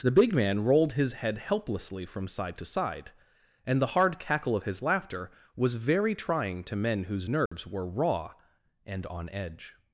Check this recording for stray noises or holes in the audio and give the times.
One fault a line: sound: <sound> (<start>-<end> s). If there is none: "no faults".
sound: dropout (7.5-7.5 s)